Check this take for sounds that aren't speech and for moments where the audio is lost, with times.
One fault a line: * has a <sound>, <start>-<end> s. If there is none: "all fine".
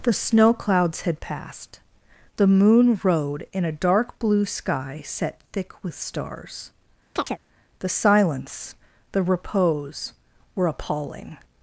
* has a chirp, 7.2-7.4 s